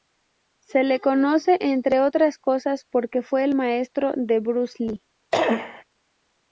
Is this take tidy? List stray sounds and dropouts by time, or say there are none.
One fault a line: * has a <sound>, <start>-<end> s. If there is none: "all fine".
* has a cough, 5.3-5.8 s